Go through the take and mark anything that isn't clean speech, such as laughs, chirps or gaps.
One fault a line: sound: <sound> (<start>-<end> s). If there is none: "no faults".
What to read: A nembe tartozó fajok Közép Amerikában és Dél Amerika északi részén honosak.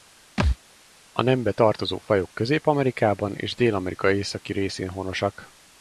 sound: thud (0.4-0.6 s)